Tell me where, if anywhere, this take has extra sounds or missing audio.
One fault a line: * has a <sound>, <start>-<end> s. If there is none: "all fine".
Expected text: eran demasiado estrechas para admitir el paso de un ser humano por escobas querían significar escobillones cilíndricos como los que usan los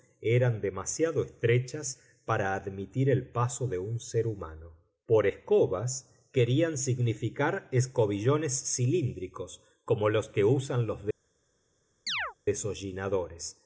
* has a chirp, 12.1-12.3 s